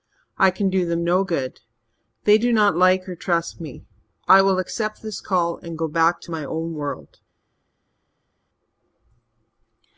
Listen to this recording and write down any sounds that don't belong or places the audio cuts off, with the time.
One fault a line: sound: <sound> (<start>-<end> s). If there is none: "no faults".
no faults